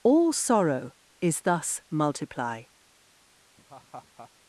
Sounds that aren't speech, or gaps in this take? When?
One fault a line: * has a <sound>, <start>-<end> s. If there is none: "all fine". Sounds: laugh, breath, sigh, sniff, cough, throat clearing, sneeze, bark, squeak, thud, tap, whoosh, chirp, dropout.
* has a laugh, 3.6-4.3 s